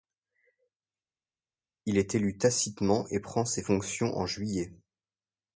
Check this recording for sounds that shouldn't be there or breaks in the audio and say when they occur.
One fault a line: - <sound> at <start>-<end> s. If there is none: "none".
none